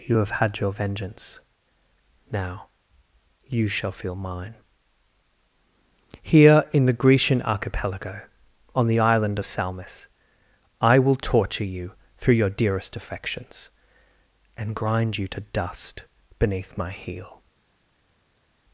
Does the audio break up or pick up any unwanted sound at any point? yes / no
no